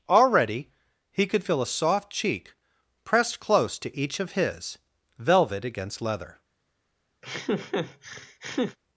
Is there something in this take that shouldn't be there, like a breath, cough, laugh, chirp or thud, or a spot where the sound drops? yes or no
yes